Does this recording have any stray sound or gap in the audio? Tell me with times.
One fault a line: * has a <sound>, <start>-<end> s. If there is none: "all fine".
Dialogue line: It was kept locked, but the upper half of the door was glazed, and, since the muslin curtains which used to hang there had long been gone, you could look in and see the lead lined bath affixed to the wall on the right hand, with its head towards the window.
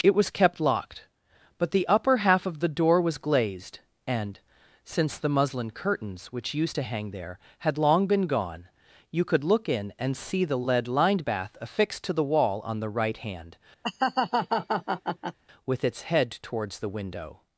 * has a laugh, 13.8-15.4 s